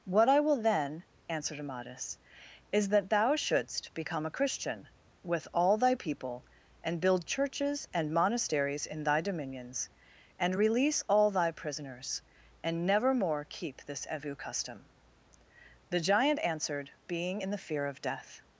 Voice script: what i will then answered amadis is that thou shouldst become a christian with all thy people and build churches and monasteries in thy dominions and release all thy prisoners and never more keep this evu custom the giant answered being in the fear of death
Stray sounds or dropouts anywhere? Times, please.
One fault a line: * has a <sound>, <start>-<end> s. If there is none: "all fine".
all fine